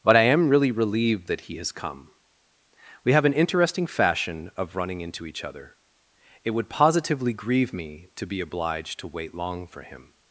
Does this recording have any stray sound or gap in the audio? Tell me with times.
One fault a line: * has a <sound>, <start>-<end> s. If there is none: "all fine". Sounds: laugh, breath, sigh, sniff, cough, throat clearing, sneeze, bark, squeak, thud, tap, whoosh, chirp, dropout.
all fine